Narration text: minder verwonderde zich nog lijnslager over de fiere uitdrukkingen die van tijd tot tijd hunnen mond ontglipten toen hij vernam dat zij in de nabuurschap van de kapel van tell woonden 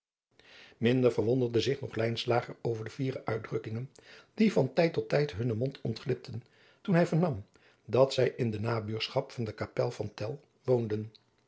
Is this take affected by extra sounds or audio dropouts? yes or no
no